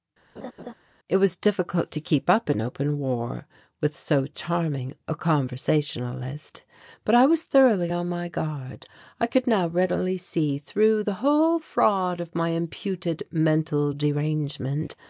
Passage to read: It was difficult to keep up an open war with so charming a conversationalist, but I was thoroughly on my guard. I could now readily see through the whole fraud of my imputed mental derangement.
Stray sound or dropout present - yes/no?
yes